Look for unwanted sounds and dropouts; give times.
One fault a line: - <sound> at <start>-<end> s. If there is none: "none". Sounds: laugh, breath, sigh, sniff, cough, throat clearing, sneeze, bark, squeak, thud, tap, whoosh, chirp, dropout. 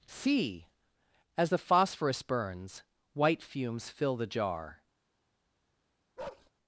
- bark at 6.2-6.5 s